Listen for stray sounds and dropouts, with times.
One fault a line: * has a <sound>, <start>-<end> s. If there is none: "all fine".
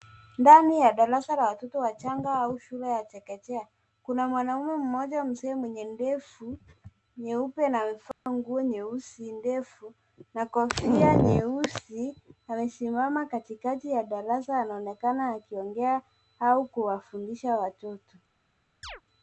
* has a dropout, 8.1-8.3 s
* has a chirp, 18.8-19.0 s